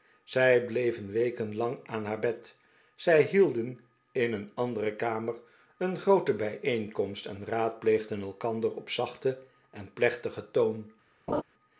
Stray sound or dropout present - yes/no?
yes